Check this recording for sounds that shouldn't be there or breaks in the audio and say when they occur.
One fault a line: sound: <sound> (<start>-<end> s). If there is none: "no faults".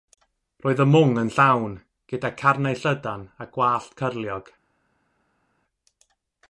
no faults